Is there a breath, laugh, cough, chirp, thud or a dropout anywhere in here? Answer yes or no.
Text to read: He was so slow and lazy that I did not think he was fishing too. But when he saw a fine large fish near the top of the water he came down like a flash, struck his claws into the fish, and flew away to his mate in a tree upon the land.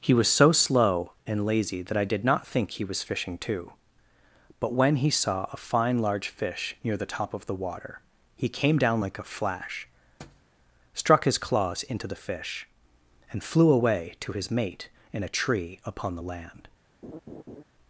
yes